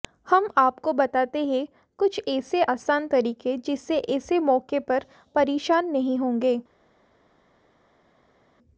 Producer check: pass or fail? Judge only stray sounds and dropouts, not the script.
pass